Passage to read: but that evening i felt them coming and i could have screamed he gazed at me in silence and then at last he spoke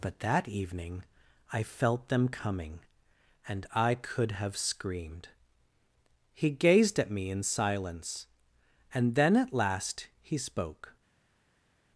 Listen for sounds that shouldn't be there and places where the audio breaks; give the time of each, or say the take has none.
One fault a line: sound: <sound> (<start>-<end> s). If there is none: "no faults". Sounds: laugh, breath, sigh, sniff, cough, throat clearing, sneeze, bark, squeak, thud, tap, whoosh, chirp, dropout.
no faults